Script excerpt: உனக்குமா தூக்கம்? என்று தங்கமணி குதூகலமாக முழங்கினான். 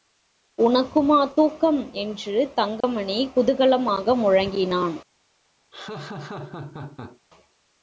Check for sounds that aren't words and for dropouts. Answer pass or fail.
fail